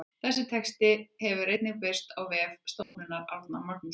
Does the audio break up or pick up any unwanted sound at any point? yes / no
yes